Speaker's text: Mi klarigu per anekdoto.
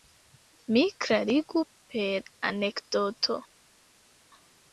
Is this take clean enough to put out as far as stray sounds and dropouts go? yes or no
yes